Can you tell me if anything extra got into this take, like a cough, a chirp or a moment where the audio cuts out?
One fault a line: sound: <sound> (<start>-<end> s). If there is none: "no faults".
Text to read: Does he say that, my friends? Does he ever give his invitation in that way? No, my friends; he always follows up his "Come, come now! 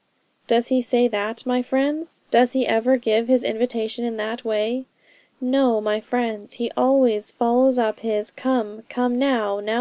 no faults